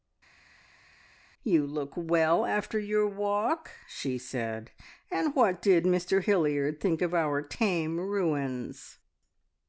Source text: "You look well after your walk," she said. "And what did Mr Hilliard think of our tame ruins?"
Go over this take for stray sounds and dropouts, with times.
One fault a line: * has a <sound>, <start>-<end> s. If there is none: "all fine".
all fine